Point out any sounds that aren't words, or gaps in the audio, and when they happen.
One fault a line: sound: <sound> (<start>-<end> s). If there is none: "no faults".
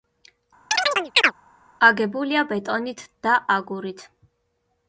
sound: chirp (0.7-1.3 s)